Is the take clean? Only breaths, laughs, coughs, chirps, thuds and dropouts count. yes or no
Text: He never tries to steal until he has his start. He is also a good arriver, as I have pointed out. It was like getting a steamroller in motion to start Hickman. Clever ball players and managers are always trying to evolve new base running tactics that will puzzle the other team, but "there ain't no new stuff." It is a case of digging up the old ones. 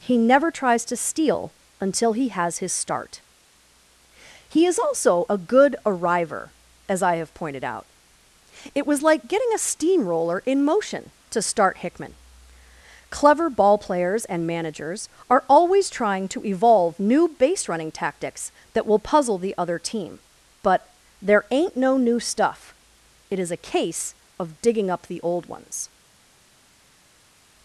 yes